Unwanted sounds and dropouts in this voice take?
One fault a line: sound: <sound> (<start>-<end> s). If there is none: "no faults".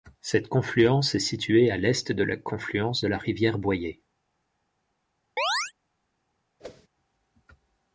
sound: chirp (5.4-5.7 s)
sound: whoosh (6.6-6.9 s)